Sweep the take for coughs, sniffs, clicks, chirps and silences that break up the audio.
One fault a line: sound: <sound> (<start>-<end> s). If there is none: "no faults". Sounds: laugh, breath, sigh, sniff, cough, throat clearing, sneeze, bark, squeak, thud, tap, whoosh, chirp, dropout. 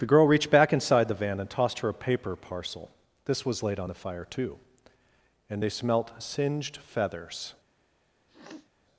sound: sniff (8.3-8.7 s)